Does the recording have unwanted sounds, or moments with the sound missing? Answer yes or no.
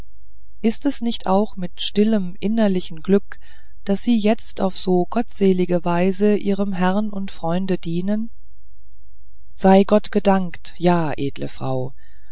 no